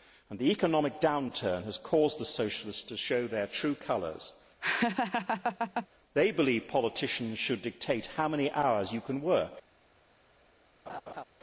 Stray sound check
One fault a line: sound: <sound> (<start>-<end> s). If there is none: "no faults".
sound: laugh (4.6-5.9 s)
sound: laugh (10.9-11.2 s)